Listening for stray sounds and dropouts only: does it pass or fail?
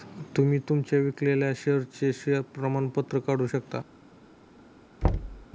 fail